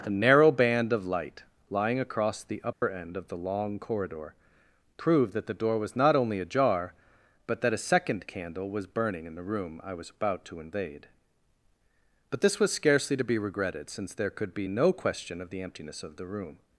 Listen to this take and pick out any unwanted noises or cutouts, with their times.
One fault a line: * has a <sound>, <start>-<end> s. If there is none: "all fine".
* has a dropout, 2.7-2.8 s